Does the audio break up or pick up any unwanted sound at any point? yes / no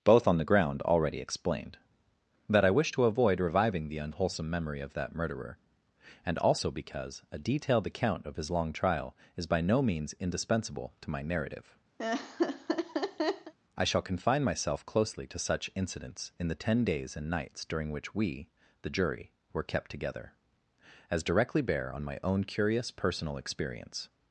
yes